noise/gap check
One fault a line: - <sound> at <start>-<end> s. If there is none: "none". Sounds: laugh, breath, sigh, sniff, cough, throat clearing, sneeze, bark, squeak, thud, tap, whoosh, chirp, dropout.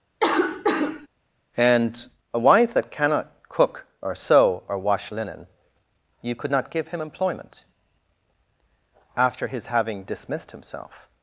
- cough at 0.2-1.1 s